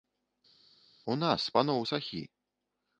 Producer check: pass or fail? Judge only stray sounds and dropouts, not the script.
pass